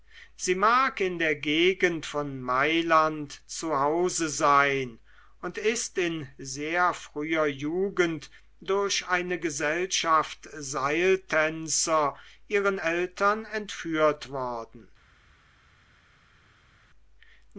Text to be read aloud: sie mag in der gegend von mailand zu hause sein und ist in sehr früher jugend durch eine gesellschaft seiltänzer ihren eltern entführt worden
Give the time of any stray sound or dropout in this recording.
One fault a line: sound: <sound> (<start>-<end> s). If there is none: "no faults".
no faults